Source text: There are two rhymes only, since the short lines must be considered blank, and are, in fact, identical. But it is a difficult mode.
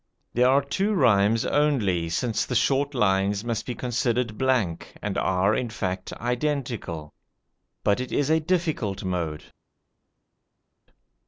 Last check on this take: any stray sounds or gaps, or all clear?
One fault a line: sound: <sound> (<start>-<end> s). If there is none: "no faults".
no faults